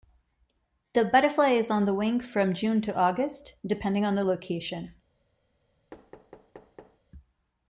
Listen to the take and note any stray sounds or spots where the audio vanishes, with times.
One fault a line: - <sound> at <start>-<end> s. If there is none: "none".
- thud at 5.9-7.0 s